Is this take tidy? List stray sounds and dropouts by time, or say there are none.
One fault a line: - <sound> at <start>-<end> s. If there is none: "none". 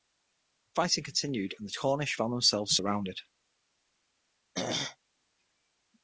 - throat clearing at 4.5-5.0 s